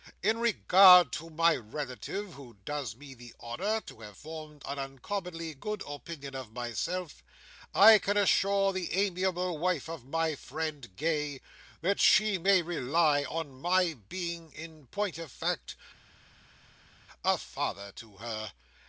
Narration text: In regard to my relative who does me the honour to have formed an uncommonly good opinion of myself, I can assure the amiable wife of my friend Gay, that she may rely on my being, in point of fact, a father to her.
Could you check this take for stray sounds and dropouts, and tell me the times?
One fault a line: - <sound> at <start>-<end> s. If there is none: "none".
none